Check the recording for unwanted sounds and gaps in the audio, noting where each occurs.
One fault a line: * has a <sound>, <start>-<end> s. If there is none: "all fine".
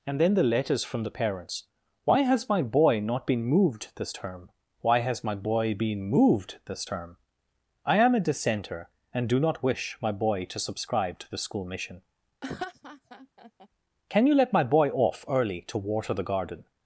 * has a laugh, 12.4-13.7 s